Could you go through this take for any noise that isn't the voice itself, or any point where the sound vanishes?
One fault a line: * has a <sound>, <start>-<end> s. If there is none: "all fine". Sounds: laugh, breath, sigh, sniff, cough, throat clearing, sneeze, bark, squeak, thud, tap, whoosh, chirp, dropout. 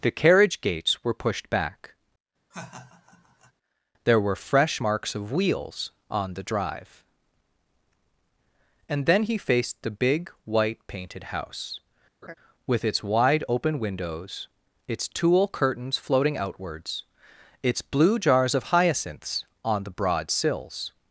* has a laugh, 2.5-3.5 s
* has a laugh, 12.2-12.3 s